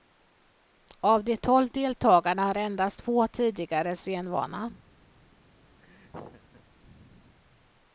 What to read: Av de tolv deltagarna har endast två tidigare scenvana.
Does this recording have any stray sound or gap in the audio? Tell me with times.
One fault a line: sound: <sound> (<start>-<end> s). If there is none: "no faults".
sound: laugh (5.8-6.6 s)